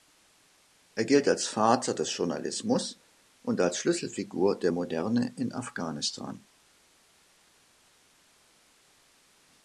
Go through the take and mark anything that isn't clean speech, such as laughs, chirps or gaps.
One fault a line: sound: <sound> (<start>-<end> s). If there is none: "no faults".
no faults